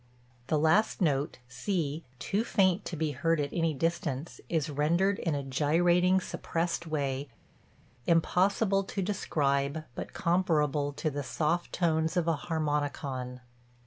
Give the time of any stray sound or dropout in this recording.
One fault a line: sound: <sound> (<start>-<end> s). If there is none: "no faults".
no faults